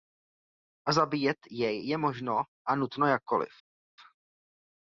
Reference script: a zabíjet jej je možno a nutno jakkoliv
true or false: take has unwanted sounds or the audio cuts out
false